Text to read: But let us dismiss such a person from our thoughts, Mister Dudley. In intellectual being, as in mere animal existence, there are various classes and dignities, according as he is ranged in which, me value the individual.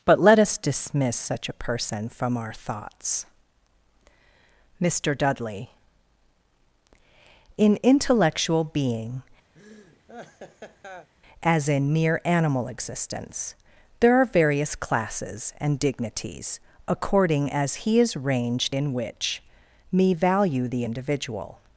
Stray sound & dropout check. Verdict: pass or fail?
fail